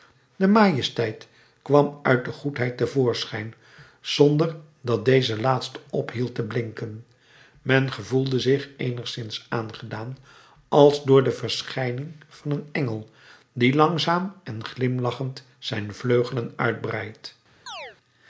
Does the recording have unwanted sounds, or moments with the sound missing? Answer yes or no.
yes